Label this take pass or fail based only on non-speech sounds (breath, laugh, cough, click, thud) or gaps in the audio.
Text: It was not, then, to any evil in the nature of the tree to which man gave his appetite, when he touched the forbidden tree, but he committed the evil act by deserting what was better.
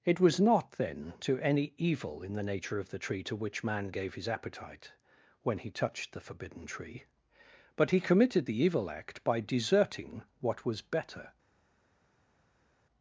pass